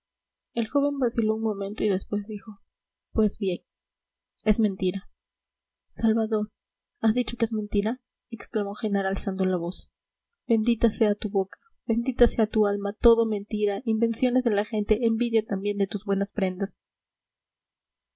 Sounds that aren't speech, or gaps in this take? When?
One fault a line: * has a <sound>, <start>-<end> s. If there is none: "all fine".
all fine